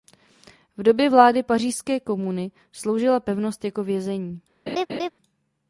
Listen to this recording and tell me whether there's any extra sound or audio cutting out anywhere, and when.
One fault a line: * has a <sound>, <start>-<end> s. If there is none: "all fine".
* has a laugh, 4.7-5.1 s